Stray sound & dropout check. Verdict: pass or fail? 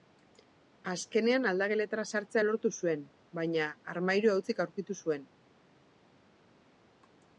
pass